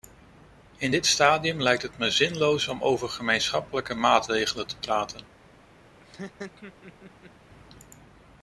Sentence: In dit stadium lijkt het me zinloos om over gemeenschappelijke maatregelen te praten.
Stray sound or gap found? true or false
true